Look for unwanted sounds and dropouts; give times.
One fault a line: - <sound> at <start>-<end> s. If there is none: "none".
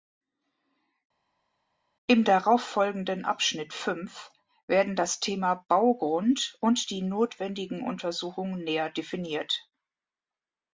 none